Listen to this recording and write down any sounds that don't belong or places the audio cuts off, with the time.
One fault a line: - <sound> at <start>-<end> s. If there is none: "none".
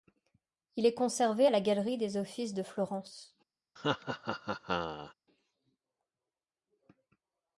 - laugh at 3.8-5.1 s